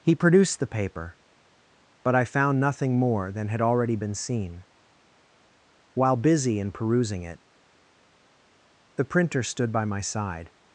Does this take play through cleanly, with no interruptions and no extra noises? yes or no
yes